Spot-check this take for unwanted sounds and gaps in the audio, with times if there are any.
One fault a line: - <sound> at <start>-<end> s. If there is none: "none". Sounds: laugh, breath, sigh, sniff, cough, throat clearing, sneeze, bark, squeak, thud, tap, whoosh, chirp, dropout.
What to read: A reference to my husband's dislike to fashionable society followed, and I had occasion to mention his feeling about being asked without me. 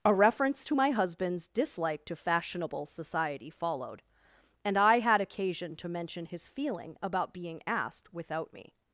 none